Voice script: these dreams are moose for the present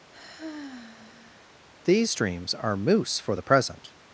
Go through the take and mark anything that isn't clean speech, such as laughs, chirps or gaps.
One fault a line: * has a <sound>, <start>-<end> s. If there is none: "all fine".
* has a sigh, 0.1-1.6 s